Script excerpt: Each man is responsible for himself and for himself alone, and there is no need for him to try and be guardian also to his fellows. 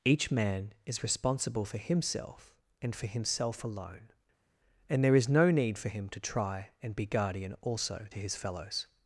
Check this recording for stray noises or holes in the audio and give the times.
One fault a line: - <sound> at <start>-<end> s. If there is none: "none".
none